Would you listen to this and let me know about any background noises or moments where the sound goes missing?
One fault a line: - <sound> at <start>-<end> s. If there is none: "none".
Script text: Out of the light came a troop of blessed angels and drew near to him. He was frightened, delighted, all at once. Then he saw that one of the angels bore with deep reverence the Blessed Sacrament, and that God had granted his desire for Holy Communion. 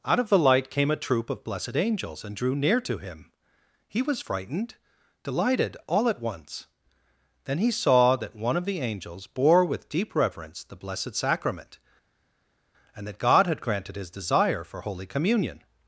none